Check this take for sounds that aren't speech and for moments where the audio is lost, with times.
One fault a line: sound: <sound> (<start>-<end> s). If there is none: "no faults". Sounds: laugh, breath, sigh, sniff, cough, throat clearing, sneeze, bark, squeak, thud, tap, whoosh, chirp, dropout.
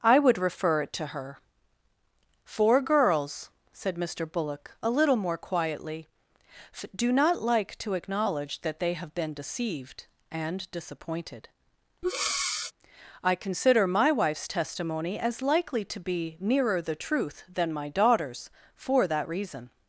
sound: breath (12.0-12.7 s)